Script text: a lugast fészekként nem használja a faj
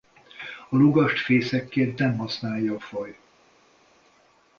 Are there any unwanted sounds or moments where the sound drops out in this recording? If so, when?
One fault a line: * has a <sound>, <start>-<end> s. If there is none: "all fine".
all fine